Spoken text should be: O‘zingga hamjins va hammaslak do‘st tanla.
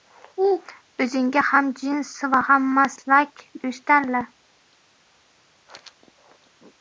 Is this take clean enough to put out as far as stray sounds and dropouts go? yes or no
yes